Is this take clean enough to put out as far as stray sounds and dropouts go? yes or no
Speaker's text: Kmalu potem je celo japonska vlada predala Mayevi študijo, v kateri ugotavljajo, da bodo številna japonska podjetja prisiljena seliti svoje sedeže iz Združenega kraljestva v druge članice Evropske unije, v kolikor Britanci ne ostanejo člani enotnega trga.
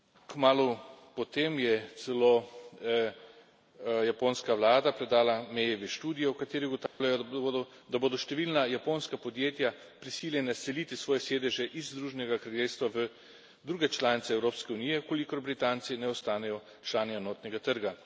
no